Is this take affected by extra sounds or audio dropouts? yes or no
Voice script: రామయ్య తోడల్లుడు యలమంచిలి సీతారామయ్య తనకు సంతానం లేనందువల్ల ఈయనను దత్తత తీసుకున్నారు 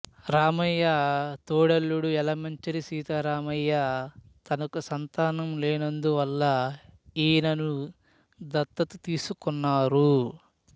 no